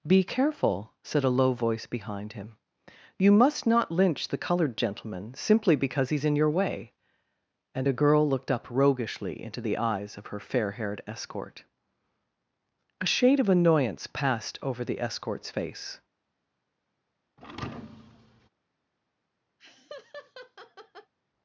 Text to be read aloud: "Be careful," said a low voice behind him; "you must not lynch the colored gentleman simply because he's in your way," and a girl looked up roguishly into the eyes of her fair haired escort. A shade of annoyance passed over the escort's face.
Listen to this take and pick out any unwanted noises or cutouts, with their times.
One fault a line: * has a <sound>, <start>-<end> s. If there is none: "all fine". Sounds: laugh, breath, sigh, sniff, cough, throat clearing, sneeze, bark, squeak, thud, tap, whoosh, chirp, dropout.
* has a thud, 17.4-18.5 s
* has a laugh, 19.6-21.1 s